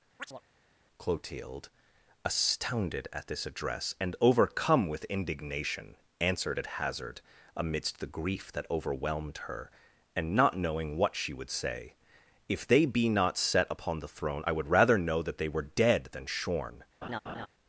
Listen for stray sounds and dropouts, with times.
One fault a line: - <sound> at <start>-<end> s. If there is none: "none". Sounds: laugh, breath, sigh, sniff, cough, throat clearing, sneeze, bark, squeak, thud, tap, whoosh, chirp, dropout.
- chirp at 0.2-0.4 s
- laugh at 17.0-17.5 s